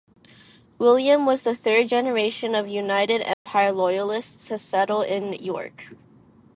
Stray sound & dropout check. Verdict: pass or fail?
fail